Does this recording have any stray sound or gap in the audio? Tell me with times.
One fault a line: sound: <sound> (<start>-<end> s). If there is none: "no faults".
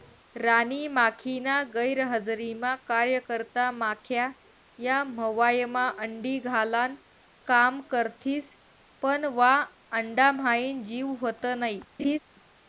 sound: laugh (12.0-12.2 s)